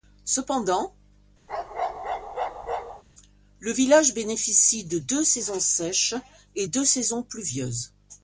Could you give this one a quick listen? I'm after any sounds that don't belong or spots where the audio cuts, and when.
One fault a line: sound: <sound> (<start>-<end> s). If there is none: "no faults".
sound: bark (1.5-3.0 s)